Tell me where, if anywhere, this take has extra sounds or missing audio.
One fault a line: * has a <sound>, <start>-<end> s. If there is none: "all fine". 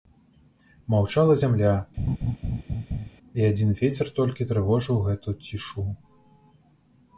* has a laugh, 2.0-3.1 s